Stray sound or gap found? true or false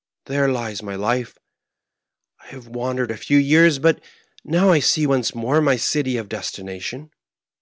false